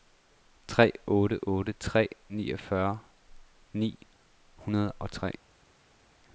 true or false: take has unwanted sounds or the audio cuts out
false